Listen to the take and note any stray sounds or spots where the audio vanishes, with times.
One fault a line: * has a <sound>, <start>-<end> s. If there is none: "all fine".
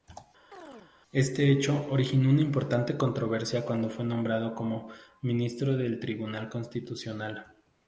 * has a chirp, 0.5-0.9 s